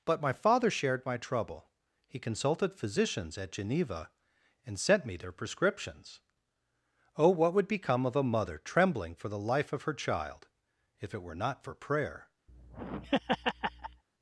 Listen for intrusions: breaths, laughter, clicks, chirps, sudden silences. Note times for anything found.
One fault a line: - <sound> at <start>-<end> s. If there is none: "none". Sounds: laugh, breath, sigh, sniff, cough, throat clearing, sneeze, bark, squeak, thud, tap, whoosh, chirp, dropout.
- laugh at 12.5-14.0 s